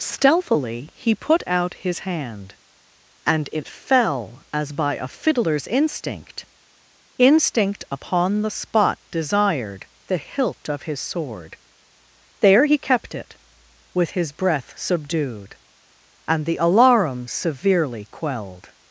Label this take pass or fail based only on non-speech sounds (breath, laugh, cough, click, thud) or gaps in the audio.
pass